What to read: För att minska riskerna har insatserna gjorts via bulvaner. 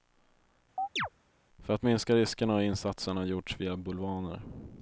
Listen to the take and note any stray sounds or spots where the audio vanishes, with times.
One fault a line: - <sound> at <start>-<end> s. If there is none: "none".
- chirp at 0.8-1.1 s